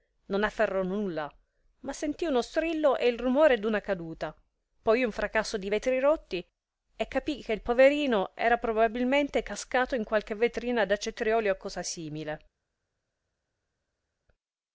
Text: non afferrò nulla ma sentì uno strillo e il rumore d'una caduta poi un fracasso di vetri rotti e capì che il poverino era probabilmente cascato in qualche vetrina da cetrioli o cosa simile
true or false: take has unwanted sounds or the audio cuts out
false